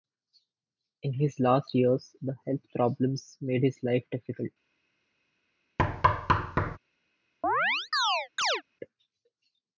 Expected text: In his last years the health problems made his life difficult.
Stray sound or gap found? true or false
true